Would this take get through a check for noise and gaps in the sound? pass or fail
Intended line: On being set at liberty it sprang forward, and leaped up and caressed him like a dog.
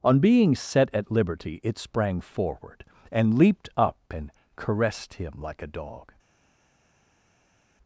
pass